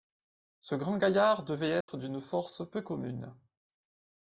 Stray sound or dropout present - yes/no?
yes